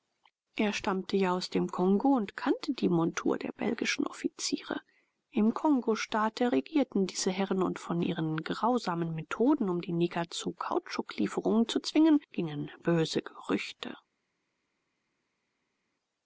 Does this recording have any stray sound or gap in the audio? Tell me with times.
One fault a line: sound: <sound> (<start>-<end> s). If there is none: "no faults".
no faults